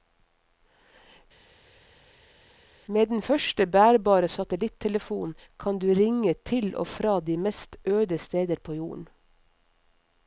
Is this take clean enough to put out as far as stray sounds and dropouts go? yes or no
yes